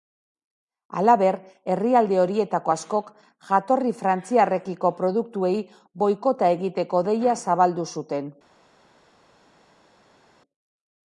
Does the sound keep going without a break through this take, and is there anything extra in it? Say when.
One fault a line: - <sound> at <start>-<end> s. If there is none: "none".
none